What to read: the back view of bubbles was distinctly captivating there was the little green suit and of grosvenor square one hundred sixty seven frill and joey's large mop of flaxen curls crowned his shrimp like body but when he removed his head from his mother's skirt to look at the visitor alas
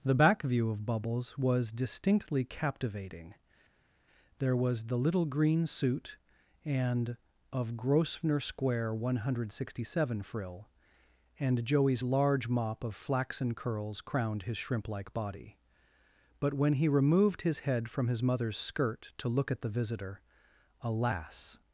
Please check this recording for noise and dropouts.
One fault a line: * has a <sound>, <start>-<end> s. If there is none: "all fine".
all fine